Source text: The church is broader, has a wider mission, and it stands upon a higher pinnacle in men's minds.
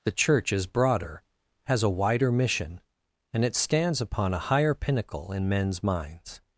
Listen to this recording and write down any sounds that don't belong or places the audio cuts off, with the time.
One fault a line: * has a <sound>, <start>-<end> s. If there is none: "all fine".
all fine